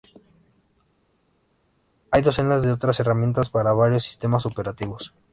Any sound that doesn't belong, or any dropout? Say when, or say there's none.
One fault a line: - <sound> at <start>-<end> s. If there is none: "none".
none